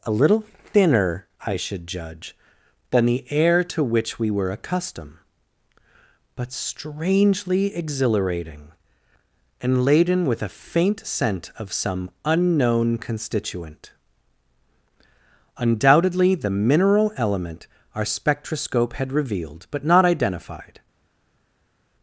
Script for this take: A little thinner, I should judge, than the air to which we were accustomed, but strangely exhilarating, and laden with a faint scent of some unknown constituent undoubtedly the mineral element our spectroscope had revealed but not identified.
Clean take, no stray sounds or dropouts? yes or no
yes